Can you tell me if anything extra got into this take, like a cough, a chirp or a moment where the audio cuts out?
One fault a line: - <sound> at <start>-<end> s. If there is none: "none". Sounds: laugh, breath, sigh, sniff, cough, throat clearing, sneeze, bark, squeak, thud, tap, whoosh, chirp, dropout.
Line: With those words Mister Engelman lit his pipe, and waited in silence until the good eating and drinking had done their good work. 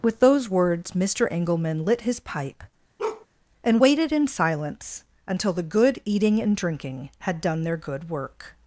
- bark at 3.0-3.3 s